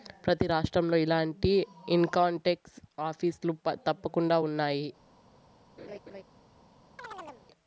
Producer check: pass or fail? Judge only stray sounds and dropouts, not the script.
fail